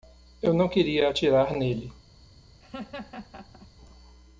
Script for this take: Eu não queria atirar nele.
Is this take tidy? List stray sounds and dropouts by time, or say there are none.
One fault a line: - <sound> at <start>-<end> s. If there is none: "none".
- laugh at 2.6-3.7 s